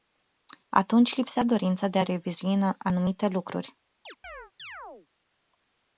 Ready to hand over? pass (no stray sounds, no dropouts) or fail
fail